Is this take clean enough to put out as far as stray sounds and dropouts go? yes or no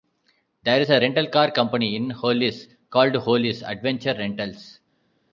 yes